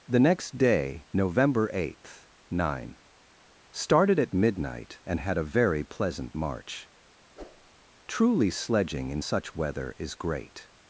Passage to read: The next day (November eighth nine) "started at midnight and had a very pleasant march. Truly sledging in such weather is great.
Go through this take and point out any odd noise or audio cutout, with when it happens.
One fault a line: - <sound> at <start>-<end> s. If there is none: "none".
- whoosh at 7.3-7.7 s